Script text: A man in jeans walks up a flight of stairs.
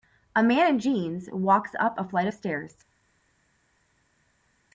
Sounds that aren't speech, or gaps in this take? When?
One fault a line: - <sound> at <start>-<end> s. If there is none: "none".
none